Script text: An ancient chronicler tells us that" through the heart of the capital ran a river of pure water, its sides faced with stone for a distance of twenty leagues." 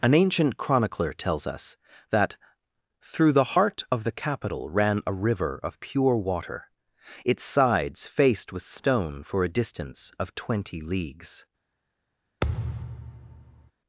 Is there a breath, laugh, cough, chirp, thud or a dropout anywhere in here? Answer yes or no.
yes